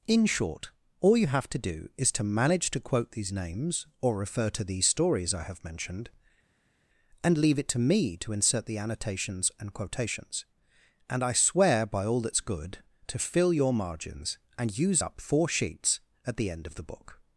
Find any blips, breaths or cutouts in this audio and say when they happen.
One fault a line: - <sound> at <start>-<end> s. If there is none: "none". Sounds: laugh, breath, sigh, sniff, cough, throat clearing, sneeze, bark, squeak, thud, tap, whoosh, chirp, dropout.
none